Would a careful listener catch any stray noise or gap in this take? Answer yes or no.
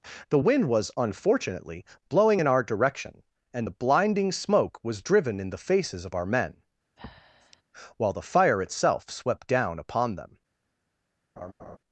yes